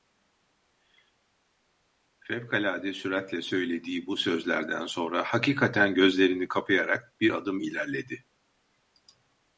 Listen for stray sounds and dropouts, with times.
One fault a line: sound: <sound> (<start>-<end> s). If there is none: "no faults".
no faults